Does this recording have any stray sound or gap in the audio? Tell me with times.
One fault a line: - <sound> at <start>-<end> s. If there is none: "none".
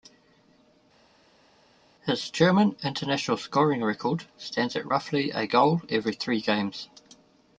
none